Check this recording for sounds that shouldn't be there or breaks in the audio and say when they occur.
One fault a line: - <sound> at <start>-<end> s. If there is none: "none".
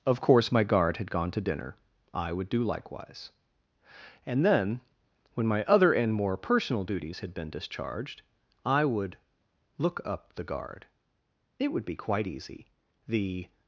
none